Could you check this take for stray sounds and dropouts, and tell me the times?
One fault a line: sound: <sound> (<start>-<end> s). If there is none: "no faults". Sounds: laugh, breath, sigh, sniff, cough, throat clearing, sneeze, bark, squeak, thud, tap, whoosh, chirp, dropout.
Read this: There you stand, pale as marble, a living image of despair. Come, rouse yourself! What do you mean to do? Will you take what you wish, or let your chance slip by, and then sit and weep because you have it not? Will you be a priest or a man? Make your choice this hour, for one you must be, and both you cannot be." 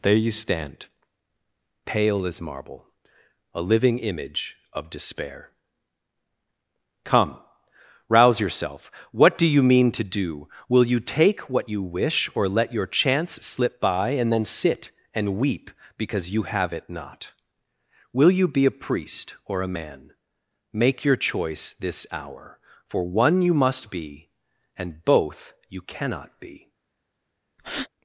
sound: breath (27.6-27.9 s)